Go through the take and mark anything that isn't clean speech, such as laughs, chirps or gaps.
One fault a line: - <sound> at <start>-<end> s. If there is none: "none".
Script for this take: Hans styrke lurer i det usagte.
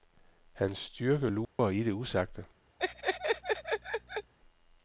- dropout at 1.4-1.6 s
- laugh at 2.8-4.3 s